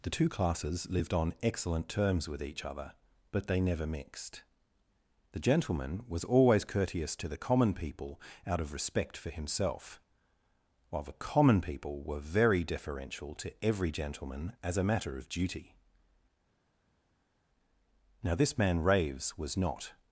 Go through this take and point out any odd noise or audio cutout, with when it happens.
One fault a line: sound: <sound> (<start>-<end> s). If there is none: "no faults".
no faults